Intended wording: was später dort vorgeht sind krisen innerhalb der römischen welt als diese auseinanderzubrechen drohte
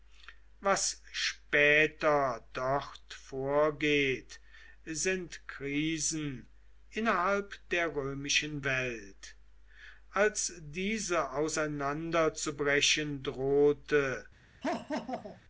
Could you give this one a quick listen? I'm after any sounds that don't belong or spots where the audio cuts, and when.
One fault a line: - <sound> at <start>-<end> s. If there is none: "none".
- laugh at 14.6-15.4 s